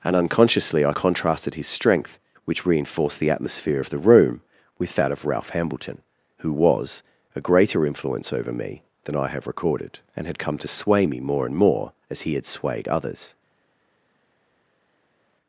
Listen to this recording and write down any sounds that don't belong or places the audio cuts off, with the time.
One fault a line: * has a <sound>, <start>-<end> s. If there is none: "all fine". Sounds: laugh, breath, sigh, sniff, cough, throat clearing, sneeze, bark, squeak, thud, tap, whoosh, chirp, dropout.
all fine